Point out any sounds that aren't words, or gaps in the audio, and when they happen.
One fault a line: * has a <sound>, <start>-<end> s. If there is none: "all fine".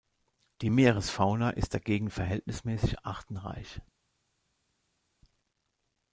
all fine